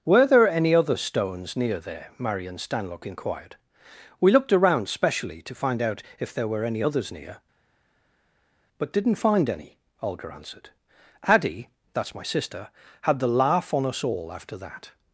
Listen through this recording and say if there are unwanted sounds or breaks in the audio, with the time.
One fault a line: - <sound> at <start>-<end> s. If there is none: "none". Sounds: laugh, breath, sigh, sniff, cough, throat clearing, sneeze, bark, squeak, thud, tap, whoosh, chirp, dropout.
none